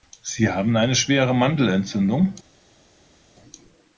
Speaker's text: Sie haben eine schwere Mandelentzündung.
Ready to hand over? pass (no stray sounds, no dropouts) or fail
pass